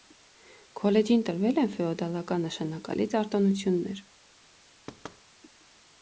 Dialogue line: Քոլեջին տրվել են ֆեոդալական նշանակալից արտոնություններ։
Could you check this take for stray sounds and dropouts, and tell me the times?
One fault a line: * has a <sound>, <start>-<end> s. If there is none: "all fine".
* has a thud, 4.9-5.2 s